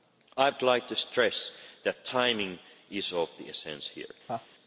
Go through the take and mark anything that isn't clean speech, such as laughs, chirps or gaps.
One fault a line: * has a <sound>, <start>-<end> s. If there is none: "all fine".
* has a laugh, 4.3-4.5 s